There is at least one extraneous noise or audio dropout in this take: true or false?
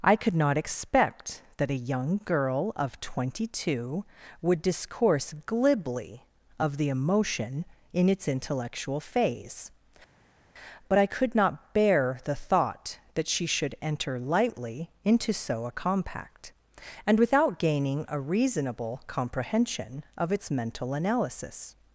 false